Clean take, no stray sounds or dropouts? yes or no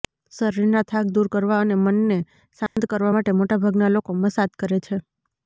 no